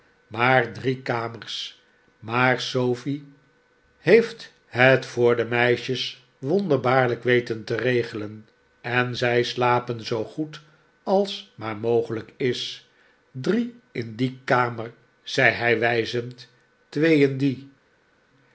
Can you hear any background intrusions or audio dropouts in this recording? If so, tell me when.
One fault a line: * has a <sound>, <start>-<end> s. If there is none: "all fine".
all fine